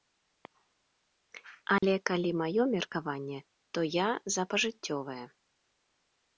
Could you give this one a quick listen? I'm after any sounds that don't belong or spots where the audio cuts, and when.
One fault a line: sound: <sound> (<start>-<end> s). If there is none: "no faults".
sound: dropout (1.8-1.8 s)